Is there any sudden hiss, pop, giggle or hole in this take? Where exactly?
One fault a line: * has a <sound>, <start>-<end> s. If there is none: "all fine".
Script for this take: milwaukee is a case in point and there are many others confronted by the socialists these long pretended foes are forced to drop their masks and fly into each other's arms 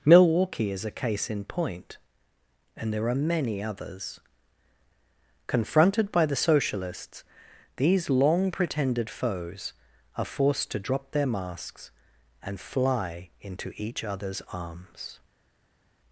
all fine